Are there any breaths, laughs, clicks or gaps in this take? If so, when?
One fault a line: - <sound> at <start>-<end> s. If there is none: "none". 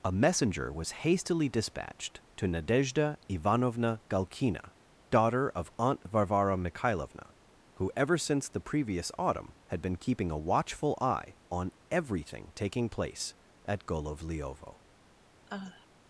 - sigh at 15.5-15.9 s